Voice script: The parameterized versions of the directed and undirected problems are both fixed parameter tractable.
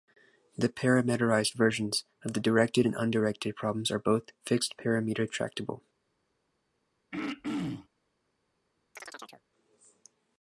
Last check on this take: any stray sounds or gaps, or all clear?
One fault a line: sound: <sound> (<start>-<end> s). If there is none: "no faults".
sound: throat clearing (7.1-7.9 s)
sound: chirp (9.0-9.4 s)